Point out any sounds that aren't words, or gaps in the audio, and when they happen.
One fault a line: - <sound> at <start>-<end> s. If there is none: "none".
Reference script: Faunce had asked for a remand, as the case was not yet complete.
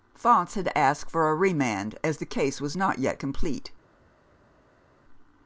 none